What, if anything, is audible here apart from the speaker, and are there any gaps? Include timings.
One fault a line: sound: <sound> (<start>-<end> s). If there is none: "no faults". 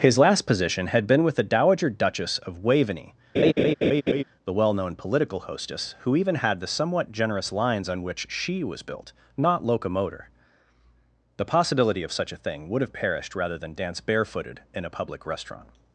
sound: laugh (3.3-4.2 s)